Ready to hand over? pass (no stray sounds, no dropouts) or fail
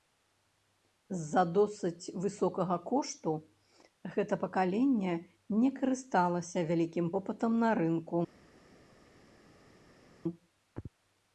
pass